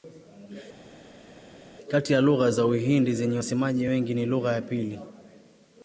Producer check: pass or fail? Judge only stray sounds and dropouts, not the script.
pass